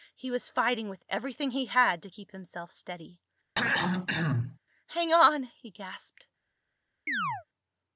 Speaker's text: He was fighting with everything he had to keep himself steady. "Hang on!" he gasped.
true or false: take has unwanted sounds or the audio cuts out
true